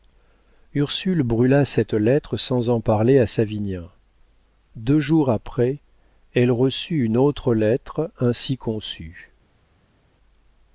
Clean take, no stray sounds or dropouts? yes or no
yes